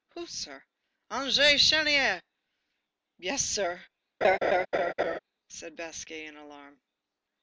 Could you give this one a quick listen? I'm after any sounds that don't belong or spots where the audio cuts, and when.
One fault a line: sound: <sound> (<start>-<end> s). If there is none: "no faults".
sound: laugh (4.2-5.2 s)